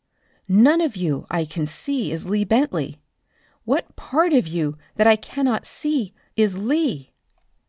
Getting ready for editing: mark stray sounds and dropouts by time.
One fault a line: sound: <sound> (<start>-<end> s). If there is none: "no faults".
no faults